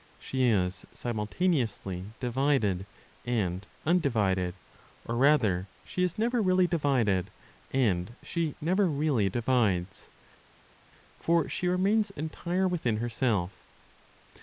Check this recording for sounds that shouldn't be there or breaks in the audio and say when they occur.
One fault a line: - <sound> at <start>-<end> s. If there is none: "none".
none